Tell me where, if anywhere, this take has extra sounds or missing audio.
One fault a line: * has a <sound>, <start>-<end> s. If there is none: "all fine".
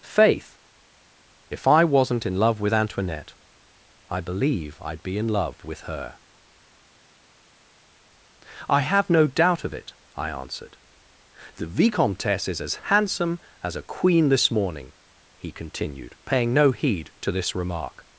all fine